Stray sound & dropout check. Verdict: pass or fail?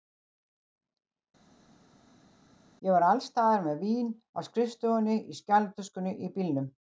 pass